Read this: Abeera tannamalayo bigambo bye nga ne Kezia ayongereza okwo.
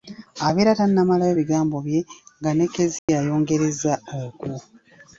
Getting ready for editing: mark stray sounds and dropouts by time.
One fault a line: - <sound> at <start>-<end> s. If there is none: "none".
- dropout at 3.0-3.1 s